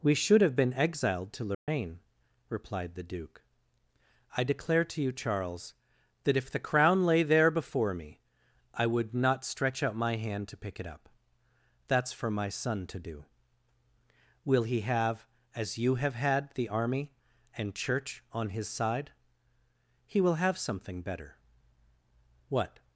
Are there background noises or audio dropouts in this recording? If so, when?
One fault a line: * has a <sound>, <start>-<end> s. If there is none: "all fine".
* has a dropout, 1.5-1.7 s